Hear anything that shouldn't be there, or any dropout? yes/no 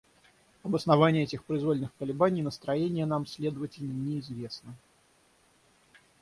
no